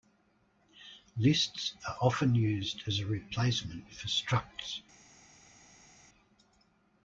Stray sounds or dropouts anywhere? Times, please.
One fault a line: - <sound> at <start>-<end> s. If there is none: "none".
none